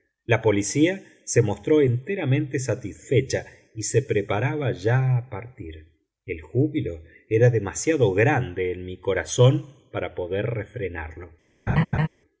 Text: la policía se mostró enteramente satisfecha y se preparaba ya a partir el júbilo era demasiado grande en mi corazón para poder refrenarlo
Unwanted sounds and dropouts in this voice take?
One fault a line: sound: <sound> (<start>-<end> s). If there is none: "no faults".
sound: laugh (11.7-12.1 s)